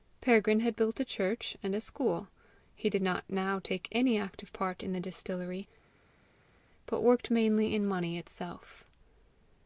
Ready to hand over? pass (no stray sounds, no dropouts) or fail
pass